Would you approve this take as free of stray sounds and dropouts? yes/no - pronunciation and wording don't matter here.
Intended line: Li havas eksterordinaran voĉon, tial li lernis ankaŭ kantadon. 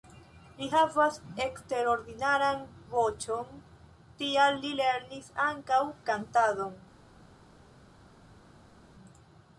yes